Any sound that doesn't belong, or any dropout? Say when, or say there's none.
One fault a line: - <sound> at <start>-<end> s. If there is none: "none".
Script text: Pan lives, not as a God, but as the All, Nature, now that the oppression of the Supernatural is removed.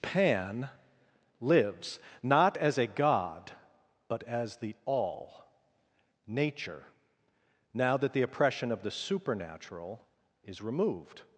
none